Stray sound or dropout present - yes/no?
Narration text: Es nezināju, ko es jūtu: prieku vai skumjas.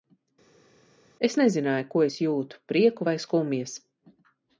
no